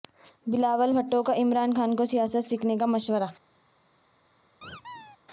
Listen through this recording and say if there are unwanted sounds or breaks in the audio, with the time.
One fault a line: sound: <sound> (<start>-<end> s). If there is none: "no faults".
sound: squeak (4.6-5.2 s)